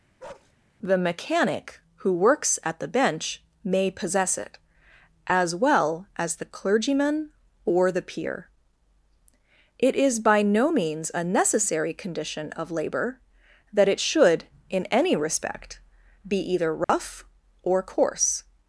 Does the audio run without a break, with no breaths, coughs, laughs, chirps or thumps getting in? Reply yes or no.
no